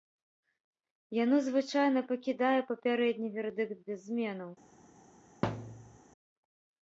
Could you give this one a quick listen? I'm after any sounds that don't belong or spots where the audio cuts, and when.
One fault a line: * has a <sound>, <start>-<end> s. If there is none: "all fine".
* has a thud, 5.4-6.0 s